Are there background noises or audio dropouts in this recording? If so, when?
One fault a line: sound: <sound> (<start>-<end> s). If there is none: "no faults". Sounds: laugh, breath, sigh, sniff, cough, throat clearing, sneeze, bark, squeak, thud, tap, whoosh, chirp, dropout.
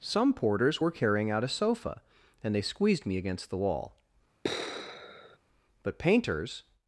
sound: sigh (4.4-5.4 s)